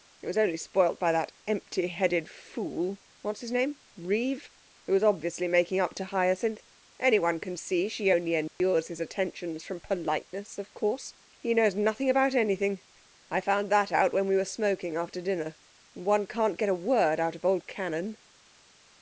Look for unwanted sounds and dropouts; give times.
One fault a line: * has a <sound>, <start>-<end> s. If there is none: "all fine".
* has a dropout, 8.5-8.6 s